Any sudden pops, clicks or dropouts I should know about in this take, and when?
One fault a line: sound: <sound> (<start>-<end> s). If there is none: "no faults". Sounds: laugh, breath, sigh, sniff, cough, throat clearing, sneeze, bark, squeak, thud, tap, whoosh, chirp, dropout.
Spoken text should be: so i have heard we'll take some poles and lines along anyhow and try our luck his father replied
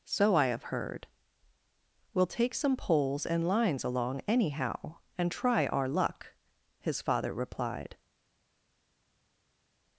no faults